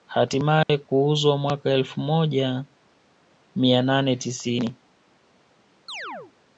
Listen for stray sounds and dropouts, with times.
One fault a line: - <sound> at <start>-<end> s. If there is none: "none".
- dropout at 0.6-0.7 s
- chirp at 5.9-6.3 s